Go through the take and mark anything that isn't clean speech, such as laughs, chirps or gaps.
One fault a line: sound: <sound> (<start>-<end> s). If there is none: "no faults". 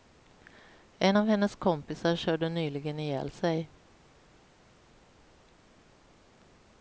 no faults